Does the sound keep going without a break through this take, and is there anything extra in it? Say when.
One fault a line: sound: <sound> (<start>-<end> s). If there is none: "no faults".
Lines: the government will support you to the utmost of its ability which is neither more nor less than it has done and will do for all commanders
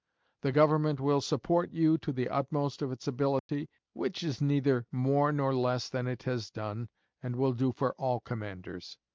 sound: dropout (3.4-3.5 s)